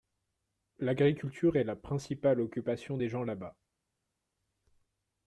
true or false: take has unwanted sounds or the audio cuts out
false